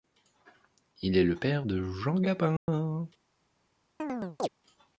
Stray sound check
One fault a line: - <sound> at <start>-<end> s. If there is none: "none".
- dropout at 2.6-2.7 s
- chirp at 4.0-4.5 s